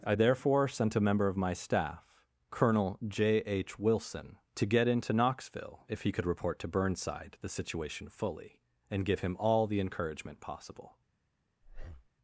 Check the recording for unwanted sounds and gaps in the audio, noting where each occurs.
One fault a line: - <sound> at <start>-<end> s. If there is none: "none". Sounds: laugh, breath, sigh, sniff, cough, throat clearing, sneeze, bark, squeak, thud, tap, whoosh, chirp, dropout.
- breath at 11.6-12.1 s